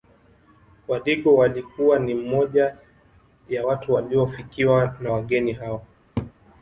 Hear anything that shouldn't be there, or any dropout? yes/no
yes